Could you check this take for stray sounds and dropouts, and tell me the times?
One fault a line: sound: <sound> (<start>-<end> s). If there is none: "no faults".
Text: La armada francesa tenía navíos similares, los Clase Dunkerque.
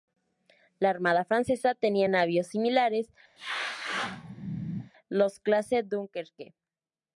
sound: sneeze (3.4-4.9 s)